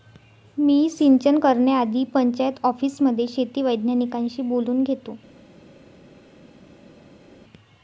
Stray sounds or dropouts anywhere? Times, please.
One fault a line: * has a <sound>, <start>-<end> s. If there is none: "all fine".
all fine